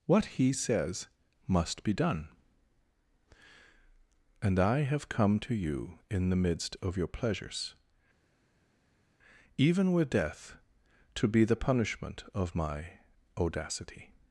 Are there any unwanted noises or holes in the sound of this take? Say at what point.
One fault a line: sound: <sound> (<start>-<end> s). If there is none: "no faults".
no faults